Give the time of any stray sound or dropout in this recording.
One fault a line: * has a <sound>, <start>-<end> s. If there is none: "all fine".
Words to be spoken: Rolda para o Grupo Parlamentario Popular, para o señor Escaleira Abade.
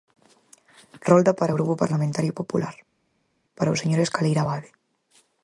all fine